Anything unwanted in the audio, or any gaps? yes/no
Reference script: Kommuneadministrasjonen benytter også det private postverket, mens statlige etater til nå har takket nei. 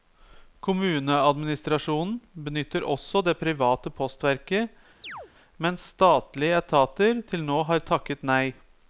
yes